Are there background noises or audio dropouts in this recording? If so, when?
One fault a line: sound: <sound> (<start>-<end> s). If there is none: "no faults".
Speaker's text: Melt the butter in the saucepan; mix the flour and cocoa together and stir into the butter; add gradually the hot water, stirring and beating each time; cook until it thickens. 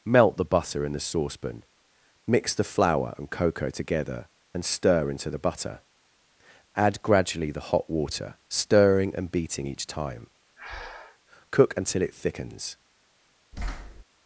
sound: breath (10.6-11.2 s)
sound: thud (13.5-14.0 s)